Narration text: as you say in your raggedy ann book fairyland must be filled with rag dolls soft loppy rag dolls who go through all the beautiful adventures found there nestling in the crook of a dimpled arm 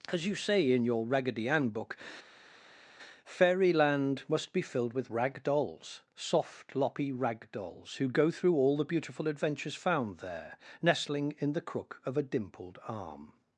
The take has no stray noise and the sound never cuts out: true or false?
true